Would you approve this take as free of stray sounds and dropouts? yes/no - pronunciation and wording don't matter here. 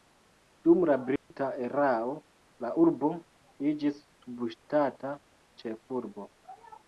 no